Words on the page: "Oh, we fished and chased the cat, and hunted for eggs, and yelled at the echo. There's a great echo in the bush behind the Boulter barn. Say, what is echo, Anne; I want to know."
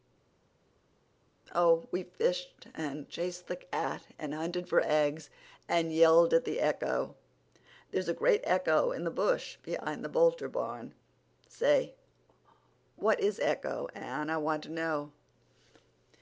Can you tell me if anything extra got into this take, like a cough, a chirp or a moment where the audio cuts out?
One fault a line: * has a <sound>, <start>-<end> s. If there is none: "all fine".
all fine